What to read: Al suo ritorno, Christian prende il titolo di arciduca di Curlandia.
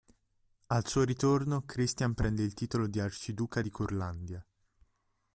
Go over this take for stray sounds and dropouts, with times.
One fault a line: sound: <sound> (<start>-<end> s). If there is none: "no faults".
no faults